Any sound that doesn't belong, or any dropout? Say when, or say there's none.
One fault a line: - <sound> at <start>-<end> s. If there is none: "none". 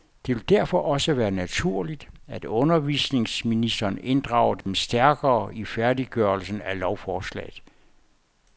- dropout at 4.6-4.7 s